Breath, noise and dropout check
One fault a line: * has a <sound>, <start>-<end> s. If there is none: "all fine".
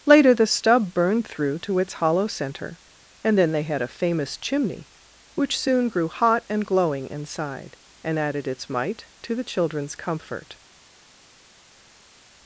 all fine